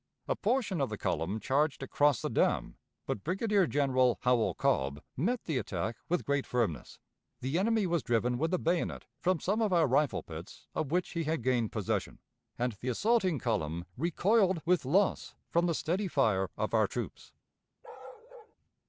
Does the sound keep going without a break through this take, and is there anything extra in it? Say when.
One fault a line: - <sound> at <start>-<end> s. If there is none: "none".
- bark at 17.8-18.6 s